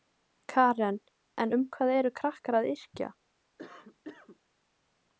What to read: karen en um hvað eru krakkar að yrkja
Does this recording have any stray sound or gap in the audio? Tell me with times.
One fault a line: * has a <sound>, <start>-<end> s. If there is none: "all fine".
* has a cough, 3.6-4.4 s